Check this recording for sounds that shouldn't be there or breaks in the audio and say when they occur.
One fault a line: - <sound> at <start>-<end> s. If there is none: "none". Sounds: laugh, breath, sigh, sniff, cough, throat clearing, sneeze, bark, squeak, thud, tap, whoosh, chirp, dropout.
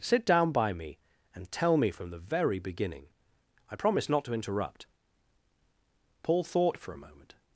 none